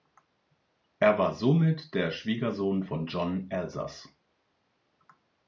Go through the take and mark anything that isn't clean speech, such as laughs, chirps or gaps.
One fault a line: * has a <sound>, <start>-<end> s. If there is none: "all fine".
all fine